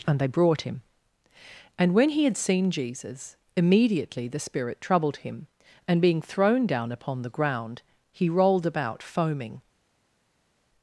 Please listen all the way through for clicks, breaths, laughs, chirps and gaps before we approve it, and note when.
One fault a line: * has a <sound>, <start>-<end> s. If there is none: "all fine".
all fine